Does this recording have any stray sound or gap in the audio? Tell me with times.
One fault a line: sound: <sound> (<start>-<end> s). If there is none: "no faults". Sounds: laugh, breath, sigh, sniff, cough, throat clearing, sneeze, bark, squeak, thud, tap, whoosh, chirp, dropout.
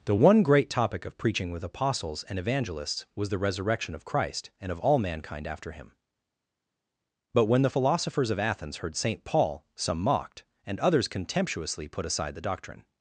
no faults